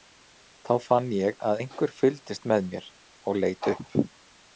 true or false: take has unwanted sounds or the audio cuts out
false